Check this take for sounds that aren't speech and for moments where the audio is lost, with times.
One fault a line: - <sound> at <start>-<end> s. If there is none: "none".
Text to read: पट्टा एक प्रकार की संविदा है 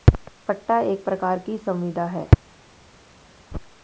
none